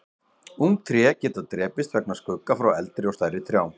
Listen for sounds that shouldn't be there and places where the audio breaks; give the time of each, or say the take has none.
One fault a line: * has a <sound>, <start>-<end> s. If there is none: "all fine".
all fine